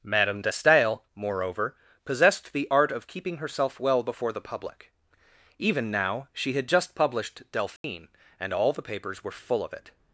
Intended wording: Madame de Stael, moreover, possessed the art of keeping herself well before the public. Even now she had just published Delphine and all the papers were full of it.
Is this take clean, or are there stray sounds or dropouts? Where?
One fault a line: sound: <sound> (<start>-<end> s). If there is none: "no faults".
sound: dropout (7.8-7.8 s)